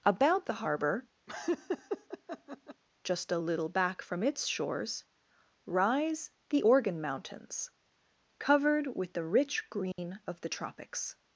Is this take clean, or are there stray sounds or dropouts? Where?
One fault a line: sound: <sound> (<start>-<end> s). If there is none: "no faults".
sound: laugh (1.3-2.8 s)
sound: dropout (9.9-10.0 s)